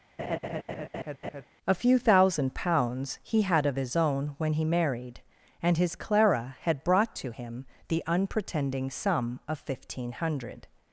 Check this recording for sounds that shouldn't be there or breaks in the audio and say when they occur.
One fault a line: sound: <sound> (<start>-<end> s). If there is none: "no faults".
sound: laugh (0.2-1.4 s)